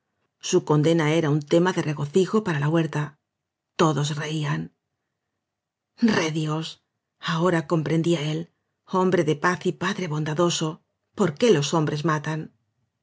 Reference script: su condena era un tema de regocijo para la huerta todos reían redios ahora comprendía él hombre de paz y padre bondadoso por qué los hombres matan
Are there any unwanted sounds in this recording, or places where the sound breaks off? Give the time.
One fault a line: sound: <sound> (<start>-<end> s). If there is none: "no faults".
no faults